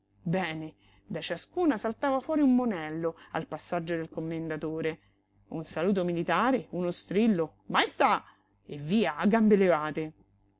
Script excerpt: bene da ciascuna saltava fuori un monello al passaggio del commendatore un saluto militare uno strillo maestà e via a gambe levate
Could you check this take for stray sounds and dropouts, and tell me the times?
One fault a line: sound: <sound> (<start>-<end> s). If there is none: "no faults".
no faults